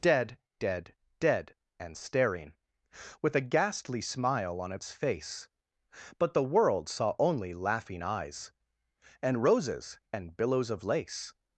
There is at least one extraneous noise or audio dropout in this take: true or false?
false